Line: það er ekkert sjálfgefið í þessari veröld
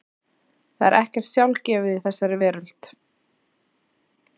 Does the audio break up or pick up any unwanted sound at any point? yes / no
no